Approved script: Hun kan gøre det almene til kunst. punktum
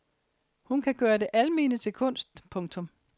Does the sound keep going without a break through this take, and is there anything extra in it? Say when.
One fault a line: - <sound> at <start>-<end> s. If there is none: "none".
none